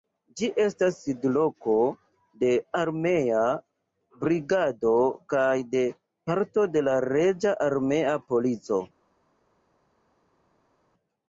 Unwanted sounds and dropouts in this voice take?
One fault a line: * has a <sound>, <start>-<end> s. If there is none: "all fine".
all fine